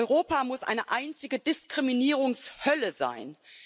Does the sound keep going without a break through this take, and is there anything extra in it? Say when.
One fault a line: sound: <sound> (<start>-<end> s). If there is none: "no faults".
no faults